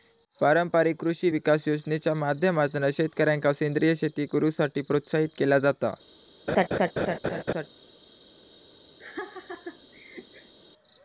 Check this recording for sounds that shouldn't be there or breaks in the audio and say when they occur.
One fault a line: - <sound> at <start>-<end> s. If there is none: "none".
- laugh at 6.5-7.7 s
- laugh at 9.0-10.5 s